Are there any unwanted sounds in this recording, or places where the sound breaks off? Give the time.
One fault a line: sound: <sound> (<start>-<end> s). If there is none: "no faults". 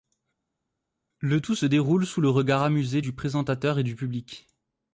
no faults